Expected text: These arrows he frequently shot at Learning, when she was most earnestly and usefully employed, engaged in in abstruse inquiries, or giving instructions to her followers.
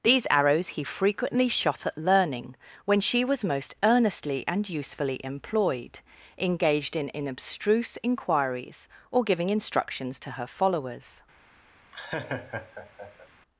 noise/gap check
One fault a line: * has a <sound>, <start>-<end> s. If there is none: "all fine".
* has a laugh, 11.9-13.3 s